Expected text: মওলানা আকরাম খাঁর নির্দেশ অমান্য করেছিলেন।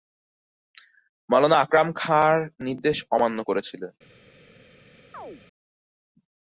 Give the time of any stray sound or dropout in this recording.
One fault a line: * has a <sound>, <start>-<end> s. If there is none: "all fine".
* has a chirp, 5.1-5.4 s